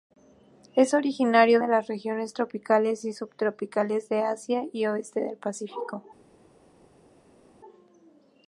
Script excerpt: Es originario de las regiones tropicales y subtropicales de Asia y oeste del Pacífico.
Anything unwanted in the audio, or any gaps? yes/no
no